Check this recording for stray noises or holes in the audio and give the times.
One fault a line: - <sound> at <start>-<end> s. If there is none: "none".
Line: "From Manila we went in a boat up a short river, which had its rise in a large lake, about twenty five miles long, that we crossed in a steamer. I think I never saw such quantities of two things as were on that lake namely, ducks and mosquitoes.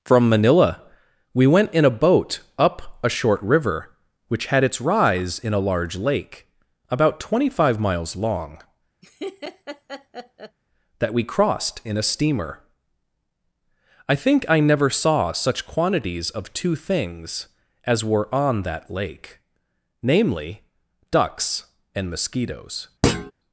- laugh at 9.0-10.6 s
- thud at 23.0-23.3 s